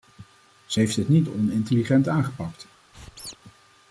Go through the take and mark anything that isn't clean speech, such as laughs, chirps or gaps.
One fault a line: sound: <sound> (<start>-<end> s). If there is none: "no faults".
sound: squeak (2.9-3.4 s)